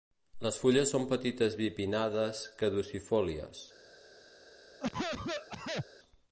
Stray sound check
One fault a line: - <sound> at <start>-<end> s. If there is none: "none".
- cough at 4.8-5.9 s